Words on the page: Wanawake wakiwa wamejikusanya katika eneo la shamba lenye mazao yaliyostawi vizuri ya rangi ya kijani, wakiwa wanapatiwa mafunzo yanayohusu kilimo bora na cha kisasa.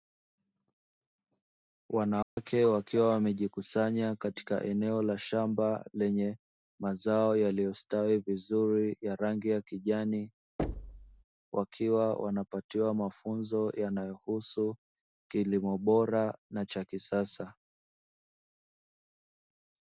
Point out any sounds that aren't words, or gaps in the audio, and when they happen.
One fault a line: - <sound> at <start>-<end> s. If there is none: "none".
- dropout at 2.2-2.4 s
- thud at 10.6-11.2 s